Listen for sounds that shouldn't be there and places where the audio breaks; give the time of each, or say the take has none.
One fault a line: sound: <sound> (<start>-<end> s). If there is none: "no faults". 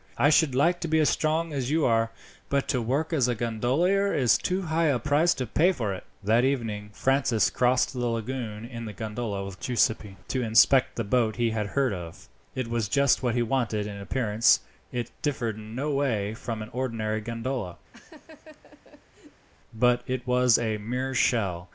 sound: laugh (17.9-19.5 s)